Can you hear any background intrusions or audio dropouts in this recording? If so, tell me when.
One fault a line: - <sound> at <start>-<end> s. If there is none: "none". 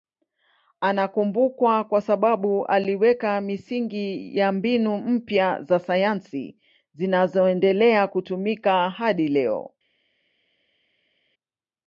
none